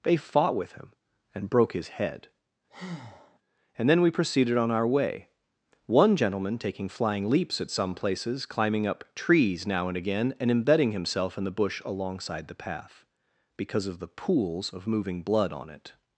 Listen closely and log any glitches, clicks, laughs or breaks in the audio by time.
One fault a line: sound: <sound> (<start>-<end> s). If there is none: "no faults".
sound: breath (2.7-3.4 s)